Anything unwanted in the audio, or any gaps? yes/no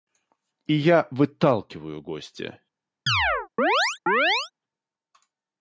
yes